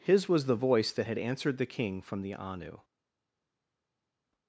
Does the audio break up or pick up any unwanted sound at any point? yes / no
no